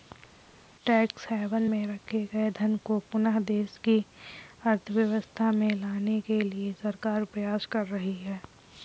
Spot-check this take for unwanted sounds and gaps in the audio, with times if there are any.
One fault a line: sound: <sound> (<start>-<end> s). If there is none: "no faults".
no faults